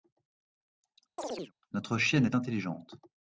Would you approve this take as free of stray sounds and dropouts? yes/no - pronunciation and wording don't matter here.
no